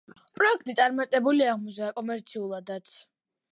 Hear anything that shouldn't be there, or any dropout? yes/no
no